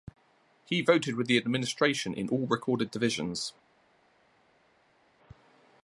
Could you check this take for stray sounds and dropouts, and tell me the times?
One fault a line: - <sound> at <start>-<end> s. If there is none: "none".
none